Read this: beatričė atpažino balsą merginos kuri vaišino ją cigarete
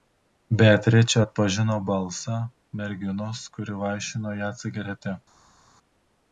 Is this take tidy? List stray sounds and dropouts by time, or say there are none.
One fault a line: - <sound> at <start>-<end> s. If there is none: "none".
none